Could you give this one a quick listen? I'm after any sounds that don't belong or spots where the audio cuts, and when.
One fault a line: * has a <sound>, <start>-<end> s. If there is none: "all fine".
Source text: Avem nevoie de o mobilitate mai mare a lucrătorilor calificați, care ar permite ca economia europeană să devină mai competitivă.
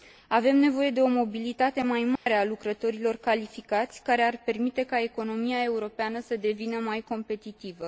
* has a dropout, 2.2-2.3 s